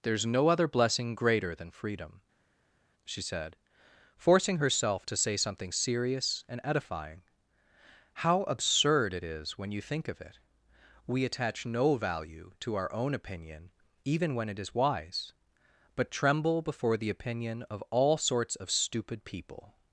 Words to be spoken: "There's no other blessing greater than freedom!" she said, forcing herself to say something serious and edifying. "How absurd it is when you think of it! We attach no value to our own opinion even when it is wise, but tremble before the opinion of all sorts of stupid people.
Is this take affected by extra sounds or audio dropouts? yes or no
no